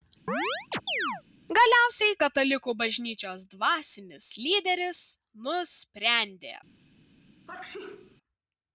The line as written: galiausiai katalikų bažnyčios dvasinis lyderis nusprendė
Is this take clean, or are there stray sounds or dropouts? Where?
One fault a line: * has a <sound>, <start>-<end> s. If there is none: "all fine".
* has a chirp, 0.3-1.2 s
* has a sneeze, 7.5-8.2 s